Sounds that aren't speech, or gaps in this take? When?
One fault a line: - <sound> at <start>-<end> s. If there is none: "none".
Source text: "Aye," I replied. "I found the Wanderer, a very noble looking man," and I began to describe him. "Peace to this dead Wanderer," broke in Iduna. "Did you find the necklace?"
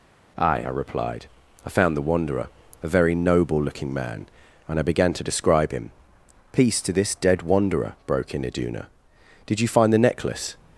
none